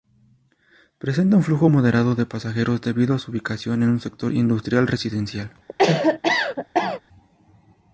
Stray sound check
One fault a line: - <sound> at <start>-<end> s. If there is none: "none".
- cough at 5.7-7.0 s